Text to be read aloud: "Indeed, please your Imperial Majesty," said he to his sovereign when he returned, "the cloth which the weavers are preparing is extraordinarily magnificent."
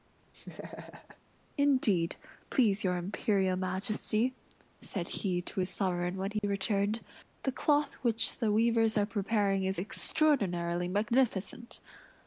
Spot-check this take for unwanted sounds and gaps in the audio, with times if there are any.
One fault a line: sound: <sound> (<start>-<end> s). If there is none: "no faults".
sound: laugh (0.3-1.2 s)
sound: dropout (6.4-6.4 s)